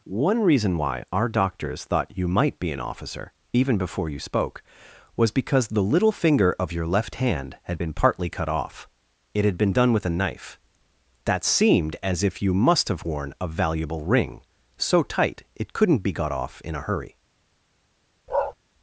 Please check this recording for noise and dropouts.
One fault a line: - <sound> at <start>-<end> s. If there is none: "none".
- bark at 18.3-18.5 s